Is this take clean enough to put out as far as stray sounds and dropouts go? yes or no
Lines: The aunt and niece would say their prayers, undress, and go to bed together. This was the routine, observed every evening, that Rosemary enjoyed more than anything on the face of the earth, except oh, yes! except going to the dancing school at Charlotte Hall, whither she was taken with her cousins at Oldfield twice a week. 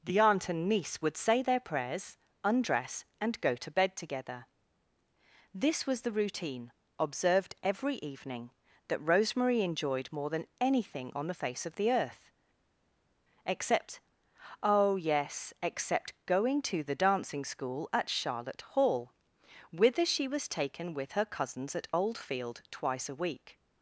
yes